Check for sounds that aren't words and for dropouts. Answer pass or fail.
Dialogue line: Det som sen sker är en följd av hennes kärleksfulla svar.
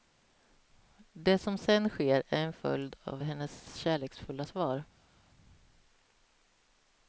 pass